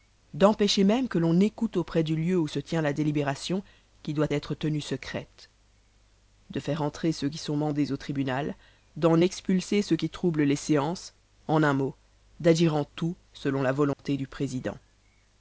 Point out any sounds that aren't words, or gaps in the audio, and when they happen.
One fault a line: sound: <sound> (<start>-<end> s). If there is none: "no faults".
sound: dropout (13.9-14.0 s)